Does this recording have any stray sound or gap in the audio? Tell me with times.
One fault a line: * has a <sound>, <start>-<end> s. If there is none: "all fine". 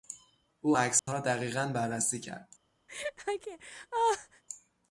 * has a dropout, 1.0-1.1 s
* has a laugh, 2.9-4.4 s